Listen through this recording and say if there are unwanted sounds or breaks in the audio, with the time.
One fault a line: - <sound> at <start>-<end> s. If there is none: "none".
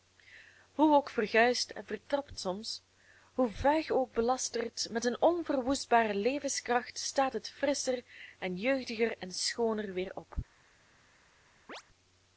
- chirp at 11.7-11.8 s